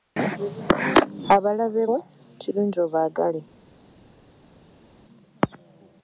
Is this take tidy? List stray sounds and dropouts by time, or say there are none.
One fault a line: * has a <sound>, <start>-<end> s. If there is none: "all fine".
all fine